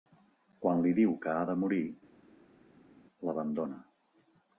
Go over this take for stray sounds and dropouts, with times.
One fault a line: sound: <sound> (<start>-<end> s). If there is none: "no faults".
no faults